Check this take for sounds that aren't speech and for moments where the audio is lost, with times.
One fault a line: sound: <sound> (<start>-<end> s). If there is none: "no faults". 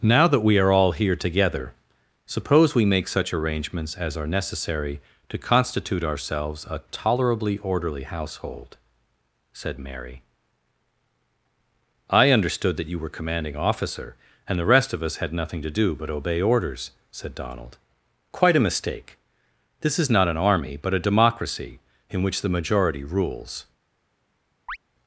sound: chirp (24.7-24.8 s)